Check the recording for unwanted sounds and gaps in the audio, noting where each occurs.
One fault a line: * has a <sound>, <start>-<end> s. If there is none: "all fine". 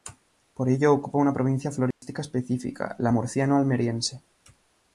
* has a dropout, 1.9-2.0 s